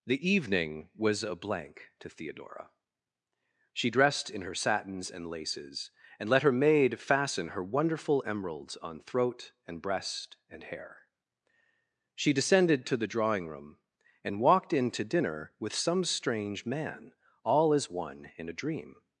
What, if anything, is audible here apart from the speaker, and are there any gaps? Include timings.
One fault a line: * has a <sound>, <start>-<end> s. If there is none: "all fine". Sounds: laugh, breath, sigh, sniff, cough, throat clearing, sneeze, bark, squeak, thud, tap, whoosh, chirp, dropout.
all fine